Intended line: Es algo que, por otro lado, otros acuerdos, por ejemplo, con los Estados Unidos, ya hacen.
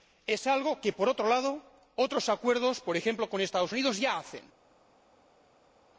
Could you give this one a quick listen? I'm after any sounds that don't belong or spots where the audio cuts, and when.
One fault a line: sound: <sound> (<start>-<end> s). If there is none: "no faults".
no faults